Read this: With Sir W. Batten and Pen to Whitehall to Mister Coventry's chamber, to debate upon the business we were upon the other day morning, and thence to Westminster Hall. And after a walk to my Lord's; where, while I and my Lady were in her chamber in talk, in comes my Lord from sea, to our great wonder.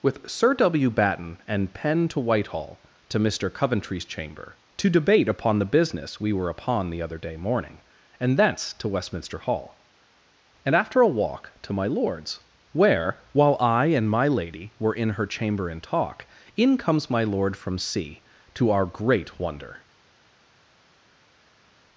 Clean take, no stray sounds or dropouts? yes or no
yes